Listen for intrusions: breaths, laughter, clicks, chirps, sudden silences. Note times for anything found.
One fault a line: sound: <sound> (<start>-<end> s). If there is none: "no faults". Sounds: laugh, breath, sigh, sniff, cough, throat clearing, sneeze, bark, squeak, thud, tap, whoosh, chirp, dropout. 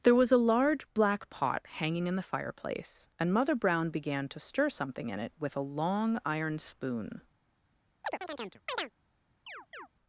sound: chirp (8.0-8.9 s)
sound: chirp (9.5-9.9 s)